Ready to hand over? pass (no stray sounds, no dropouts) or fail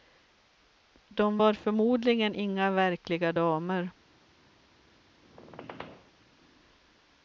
fail